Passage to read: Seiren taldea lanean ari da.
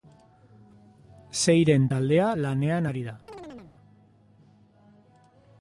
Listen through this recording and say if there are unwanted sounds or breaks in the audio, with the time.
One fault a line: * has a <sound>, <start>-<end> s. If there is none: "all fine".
* has a chirp, 3.3-3.8 s